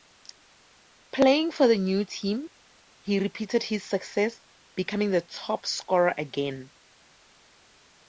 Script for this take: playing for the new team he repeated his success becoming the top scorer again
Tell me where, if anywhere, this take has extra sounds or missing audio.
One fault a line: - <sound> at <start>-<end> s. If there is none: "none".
none